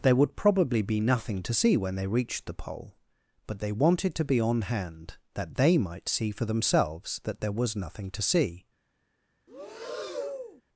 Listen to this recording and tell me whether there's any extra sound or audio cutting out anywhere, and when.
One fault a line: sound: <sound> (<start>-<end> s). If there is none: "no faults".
sound: breath (9.5-10.6 s)